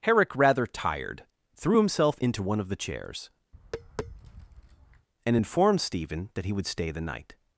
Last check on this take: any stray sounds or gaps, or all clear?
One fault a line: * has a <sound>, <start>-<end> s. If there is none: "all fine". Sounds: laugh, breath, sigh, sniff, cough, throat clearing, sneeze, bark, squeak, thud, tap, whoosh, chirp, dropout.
* has a tap, 3.5-5.1 s